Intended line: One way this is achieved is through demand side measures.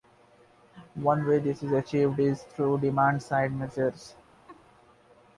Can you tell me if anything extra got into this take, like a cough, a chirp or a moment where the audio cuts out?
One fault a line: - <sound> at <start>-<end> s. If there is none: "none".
- laugh at 4.5-4.6 s